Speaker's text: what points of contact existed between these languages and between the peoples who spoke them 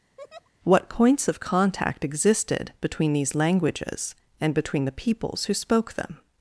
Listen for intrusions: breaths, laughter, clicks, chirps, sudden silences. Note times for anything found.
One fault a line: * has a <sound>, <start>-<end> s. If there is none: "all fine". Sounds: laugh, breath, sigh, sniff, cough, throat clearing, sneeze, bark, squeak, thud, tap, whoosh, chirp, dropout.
* has a laugh, 0.2-0.5 s